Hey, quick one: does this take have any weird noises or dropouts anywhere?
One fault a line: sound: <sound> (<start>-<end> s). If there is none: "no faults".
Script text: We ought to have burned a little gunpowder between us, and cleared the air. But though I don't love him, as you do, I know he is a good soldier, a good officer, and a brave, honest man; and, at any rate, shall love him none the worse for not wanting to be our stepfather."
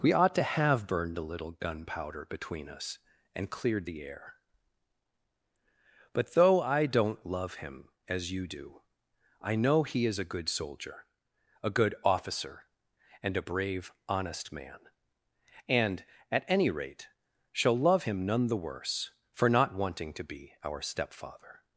no faults